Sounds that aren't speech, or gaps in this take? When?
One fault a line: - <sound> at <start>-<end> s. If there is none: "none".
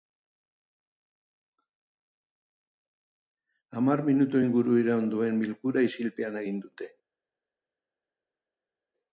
none